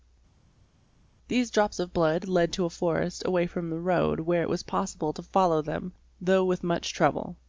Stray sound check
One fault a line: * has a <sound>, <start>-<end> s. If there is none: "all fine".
all fine